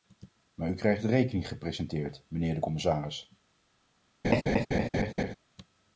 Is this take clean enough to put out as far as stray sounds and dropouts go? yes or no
no